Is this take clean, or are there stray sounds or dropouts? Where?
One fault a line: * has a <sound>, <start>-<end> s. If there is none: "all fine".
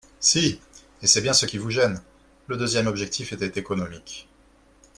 all fine